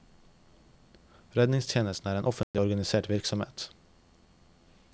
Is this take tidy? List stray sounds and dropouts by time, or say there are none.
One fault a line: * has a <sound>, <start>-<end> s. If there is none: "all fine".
* has a dropout, 2.4-2.5 s